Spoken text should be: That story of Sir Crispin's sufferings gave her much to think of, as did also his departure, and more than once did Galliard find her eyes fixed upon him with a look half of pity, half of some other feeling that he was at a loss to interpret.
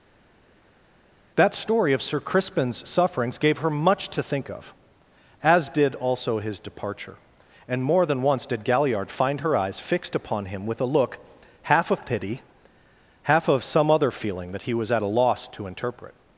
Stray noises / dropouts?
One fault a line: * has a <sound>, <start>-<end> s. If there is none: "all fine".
all fine